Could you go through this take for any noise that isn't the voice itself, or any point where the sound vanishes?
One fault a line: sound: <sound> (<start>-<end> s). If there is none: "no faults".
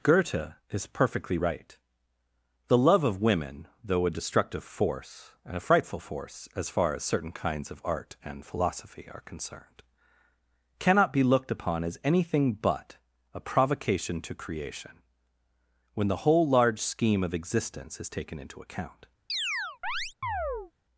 sound: chirp (19.3-20.7 s)